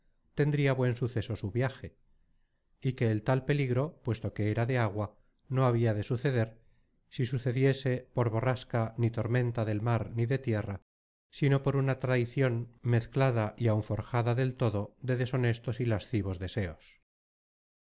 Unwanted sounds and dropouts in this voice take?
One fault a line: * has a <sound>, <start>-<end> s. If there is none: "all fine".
all fine